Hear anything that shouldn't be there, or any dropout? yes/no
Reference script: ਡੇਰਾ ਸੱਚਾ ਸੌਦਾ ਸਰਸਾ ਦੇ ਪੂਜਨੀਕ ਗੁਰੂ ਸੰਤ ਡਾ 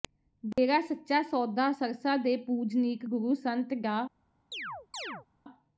yes